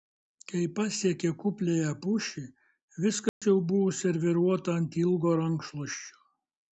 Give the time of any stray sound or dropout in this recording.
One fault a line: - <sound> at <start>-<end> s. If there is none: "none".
- dropout at 3.3-3.4 s